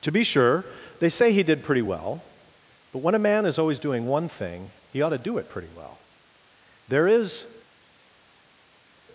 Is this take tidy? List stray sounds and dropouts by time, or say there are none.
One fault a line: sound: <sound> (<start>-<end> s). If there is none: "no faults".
no faults